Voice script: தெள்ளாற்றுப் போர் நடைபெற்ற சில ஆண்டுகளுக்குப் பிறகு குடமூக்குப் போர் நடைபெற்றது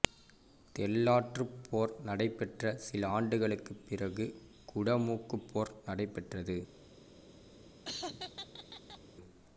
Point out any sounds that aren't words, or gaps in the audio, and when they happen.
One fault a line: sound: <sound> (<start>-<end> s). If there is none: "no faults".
sound: laugh (7.8-9.0 s)